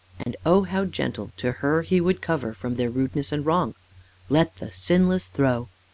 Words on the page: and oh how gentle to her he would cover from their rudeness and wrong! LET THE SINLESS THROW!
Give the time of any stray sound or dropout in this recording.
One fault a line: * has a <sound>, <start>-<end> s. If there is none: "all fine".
* has a dropout, 0.2-0.3 s